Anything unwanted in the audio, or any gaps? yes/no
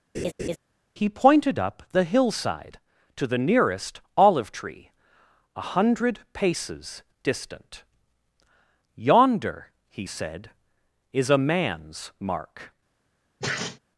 yes